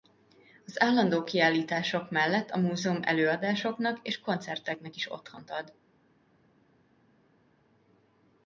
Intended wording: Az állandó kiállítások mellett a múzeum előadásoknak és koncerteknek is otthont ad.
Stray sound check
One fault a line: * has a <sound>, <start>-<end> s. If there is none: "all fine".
all fine